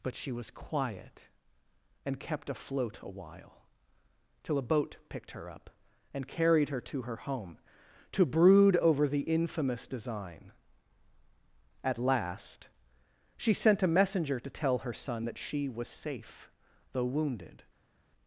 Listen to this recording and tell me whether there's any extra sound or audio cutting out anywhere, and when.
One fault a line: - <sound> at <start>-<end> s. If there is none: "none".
none